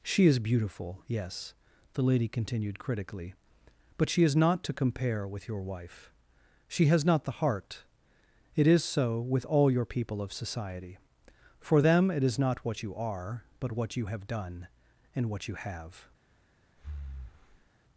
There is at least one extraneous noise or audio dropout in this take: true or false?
true